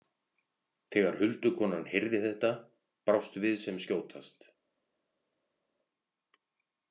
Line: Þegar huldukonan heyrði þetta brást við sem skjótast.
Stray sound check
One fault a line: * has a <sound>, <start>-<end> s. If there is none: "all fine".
all fine